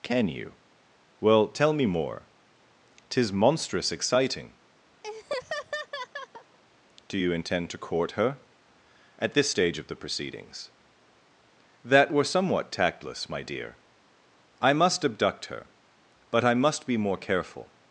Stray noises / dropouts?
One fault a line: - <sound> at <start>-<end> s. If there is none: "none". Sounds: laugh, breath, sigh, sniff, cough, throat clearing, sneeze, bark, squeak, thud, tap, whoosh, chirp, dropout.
- laugh at 5.0-6.6 s